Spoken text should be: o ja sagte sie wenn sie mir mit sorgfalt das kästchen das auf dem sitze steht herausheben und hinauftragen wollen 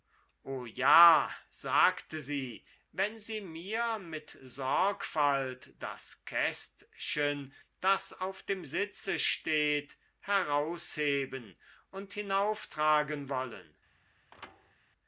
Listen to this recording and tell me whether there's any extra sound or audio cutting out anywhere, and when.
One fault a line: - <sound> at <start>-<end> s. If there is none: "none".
- thud at 14.3-14.7 s